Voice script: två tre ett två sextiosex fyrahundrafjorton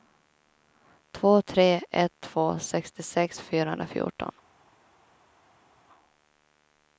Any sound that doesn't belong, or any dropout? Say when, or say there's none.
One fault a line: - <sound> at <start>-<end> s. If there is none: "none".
none